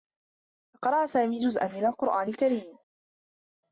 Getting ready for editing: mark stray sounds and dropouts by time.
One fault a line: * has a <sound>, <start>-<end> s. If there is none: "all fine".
all fine